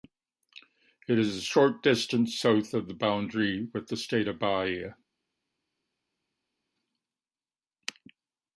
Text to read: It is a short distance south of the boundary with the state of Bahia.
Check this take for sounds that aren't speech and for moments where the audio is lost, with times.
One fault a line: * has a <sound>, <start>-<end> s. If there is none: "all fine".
all fine